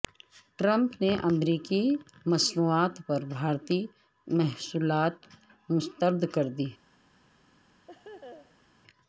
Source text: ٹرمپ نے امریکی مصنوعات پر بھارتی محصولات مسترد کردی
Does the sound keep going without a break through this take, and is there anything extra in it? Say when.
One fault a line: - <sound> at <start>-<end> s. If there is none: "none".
- laugh at 7.9-8.7 s